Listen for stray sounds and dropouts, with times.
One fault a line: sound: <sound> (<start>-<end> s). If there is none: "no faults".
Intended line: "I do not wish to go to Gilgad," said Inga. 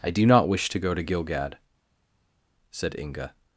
no faults